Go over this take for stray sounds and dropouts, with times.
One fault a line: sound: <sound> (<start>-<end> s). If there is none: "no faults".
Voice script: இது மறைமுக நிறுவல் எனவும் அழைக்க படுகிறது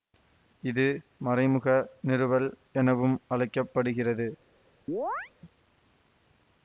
sound: chirp (4.9-5.3 s)